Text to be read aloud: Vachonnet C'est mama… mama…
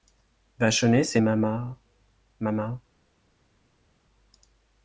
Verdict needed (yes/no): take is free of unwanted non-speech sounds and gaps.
yes